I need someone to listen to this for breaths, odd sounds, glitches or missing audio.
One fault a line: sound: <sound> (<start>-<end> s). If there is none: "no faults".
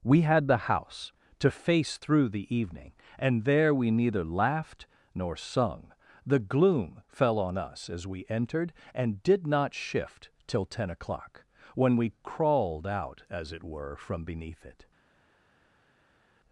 no faults